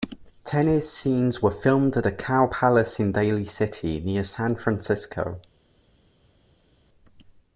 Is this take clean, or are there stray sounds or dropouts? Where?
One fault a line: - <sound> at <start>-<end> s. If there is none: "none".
none